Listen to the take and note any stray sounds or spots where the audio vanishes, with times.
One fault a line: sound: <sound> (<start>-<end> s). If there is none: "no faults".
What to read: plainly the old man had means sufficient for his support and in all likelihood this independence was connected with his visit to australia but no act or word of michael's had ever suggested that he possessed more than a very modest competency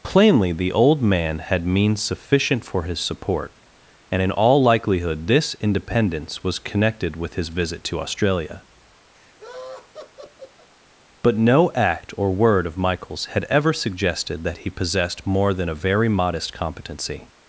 sound: laugh (9.1-10.7 s)